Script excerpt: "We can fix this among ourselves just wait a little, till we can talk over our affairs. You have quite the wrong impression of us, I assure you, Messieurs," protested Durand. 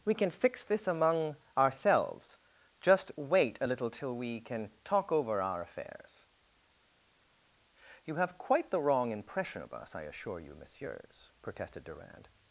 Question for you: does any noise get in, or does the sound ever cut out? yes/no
no